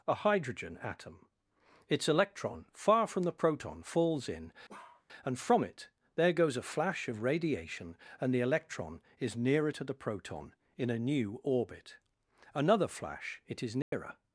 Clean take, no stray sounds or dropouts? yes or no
no